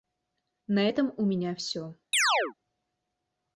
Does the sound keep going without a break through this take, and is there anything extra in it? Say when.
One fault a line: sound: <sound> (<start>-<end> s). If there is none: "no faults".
sound: chirp (2.1-2.5 s)